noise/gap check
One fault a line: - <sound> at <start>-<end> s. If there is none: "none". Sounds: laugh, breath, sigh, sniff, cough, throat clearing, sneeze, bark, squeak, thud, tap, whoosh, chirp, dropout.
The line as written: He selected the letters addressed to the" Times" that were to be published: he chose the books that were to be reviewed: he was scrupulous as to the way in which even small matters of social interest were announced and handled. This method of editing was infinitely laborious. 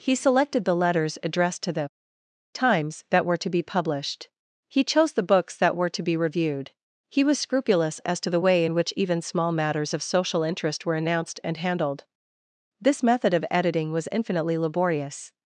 none